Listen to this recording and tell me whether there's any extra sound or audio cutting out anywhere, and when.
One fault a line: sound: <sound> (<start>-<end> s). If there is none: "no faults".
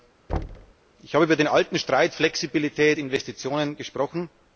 sound: thud (0.3-0.7 s)